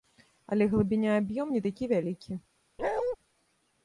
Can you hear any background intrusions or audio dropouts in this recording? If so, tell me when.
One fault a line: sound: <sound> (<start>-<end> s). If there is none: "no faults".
sound: bark (2.8-3.2 s)